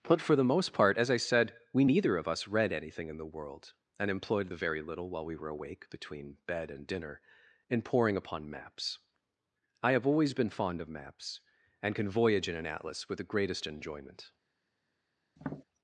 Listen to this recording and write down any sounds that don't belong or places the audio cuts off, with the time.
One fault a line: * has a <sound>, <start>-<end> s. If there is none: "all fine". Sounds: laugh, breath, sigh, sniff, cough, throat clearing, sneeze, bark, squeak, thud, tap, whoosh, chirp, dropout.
* has a tap, 15.4-15.6 s